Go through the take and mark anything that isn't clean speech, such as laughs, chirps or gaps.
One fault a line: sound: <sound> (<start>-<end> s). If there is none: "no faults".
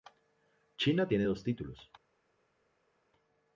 no faults